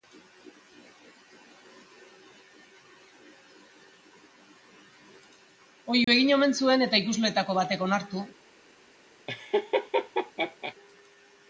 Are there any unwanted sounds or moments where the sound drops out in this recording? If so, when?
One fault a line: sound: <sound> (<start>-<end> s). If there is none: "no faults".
sound: dropout (6.0-6.1 s)
sound: laugh (9.3-10.7 s)